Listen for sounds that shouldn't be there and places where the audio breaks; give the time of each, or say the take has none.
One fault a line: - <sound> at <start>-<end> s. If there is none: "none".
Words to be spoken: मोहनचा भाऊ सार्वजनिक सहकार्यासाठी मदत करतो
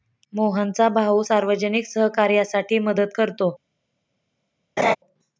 - laugh at 4.8-5.0 s